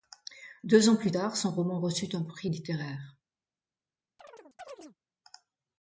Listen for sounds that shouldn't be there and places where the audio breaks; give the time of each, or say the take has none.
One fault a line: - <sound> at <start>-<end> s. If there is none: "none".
- chirp at 4.2-5.0 s